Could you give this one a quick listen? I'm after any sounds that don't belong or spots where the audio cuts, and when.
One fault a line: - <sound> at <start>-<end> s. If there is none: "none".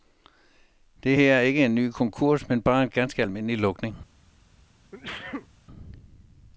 - sneeze at 4.9-5.5 s